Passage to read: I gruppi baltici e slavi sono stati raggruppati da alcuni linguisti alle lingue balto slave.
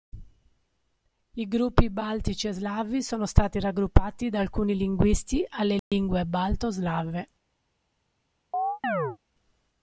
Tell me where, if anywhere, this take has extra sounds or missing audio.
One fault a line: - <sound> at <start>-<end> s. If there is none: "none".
- dropout at 5.8-5.9 s
- chirp at 8.5-9.2 s